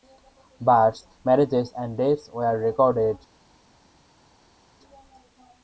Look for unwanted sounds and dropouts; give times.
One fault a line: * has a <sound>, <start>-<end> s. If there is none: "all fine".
all fine